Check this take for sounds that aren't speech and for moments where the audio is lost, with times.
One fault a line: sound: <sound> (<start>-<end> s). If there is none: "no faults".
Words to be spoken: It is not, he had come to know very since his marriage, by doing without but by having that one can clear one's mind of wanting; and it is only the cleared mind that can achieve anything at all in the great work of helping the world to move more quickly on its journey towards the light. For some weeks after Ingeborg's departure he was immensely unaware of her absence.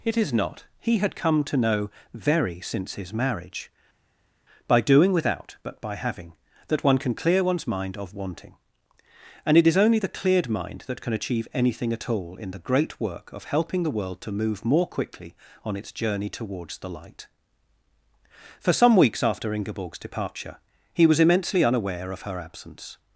no faults